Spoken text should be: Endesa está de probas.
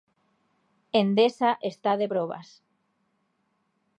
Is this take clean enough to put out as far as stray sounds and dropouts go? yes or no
yes